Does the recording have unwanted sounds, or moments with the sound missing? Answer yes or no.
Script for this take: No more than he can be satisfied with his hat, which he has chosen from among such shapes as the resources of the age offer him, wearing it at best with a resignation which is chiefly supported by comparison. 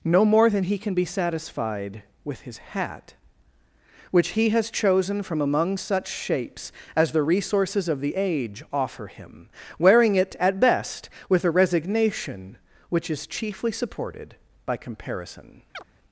yes